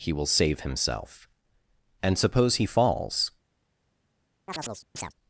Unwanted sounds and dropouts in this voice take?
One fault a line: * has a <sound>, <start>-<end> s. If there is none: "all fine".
* has a chirp, 4.5-5.1 s